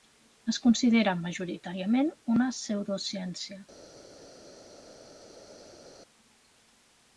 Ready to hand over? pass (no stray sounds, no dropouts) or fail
pass